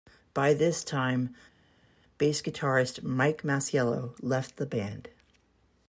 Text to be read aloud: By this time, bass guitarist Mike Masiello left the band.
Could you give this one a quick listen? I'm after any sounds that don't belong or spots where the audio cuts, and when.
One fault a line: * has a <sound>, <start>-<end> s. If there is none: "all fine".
all fine